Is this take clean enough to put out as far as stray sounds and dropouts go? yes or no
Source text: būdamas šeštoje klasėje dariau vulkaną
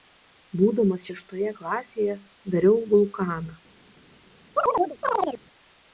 no